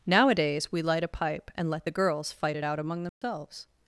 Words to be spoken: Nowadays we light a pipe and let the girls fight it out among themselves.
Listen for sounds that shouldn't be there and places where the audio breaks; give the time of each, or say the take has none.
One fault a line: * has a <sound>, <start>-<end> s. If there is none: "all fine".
* has a dropout, 3.1-3.2 s